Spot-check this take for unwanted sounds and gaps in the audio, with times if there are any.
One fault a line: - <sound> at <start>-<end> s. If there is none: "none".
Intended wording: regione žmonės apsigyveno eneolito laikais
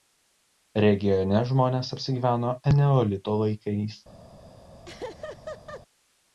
- laugh at 4.8-5.8 s